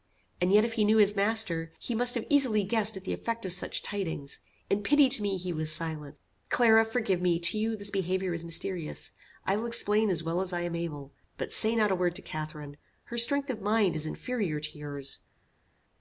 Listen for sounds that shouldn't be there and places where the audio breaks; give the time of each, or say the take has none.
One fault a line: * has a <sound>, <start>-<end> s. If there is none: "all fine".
all fine